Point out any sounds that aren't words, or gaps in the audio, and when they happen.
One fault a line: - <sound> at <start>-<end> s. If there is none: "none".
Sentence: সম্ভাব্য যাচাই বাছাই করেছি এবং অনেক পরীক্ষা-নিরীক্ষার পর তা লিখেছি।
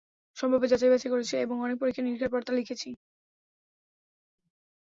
none